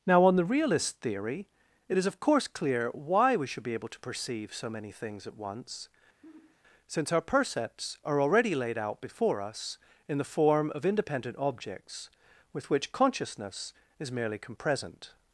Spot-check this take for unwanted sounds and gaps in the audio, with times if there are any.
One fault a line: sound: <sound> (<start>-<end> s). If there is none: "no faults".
sound: sigh (6.2-6.6 s)